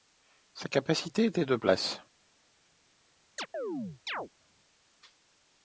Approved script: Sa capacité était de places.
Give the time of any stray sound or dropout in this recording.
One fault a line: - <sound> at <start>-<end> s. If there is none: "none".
- chirp at 3.4-4.3 s